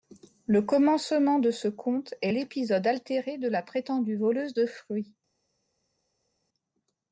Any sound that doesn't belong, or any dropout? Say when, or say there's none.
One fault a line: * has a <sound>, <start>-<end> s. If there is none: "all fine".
all fine